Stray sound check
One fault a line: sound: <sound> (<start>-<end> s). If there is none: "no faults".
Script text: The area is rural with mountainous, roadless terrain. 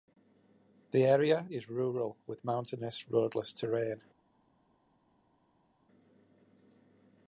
no faults